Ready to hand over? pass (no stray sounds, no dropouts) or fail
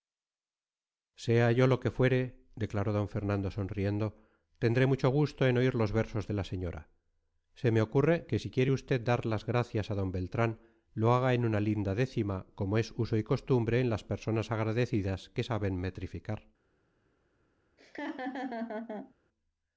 fail